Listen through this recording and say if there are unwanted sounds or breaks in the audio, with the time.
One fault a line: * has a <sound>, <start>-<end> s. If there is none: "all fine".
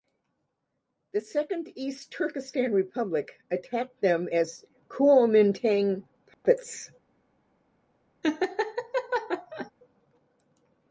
* has a dropout, 6.3-6.4 s
* has a laugh, 8.2-9.7 s